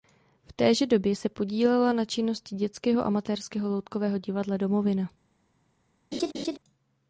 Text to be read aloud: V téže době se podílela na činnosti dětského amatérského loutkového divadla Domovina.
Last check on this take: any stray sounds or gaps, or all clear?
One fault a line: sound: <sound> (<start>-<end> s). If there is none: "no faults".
sound: laugh (6.1-6.6 s)